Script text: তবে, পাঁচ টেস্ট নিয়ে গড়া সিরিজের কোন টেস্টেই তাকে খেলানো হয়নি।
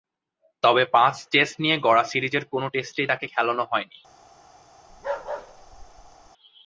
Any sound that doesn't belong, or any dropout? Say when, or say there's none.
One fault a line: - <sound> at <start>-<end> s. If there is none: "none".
- bark at 4.9-6.3 s